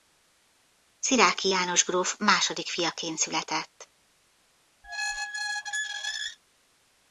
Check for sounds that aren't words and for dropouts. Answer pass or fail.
fail